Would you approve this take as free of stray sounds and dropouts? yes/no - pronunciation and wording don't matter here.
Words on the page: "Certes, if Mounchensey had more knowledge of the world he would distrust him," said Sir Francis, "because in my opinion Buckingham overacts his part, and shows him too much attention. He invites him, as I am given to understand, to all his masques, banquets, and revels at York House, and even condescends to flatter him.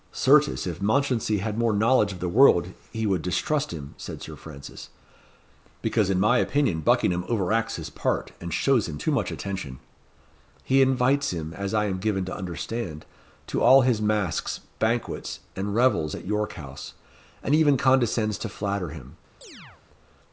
no